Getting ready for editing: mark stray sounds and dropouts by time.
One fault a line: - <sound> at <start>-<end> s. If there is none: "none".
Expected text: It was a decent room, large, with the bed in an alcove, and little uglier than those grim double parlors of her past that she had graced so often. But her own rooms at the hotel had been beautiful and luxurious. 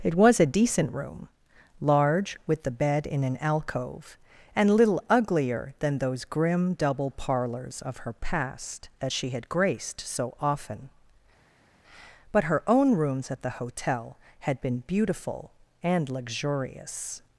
none